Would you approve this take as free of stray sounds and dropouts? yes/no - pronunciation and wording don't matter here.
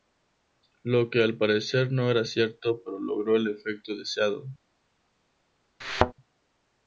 no